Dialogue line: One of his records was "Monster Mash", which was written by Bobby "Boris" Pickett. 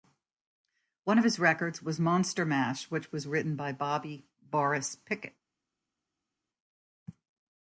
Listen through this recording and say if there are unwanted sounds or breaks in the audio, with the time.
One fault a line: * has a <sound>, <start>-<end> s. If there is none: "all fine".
all fine